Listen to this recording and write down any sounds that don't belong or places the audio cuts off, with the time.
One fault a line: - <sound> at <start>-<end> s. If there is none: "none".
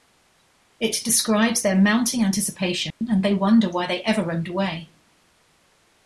- dropout at 2.9-3.0 s